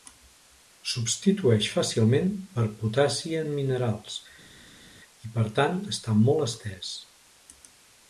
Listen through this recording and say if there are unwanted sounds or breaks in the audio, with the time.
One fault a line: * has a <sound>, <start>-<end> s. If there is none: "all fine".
all fine